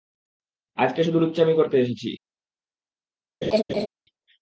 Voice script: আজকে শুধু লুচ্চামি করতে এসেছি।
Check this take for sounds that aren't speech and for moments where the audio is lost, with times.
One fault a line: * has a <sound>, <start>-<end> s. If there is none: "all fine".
* has a laugh, 3.4-3.9 s